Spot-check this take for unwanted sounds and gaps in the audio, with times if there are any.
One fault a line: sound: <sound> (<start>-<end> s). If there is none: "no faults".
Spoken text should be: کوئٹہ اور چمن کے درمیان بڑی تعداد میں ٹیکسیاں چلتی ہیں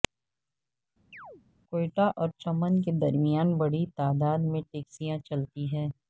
sound: chirp (1.1-1.4 s)